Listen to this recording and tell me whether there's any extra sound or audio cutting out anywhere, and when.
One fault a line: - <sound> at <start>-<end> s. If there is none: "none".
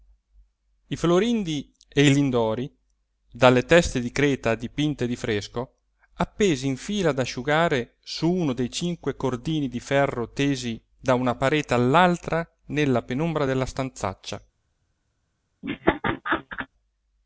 - laugh at 15.6-16.7 s